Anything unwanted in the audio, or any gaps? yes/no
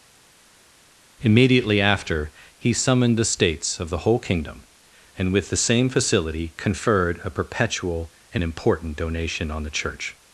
no